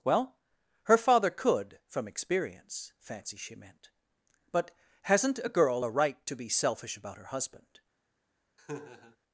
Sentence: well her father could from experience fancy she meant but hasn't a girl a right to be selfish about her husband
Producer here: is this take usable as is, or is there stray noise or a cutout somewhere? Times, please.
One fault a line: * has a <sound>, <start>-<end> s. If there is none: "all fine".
* has a laugh, 8.6-9.2 s